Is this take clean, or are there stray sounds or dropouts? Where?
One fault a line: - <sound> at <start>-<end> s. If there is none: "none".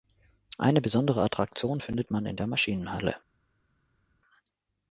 none